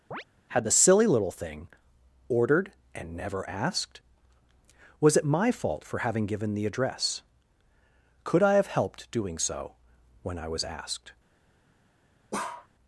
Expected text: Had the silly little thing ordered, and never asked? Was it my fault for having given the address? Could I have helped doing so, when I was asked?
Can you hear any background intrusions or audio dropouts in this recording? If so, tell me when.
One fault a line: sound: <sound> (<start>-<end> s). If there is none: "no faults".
sound: chirp (0.1-0.2 s)
sound: bark (12.3-12.7 s)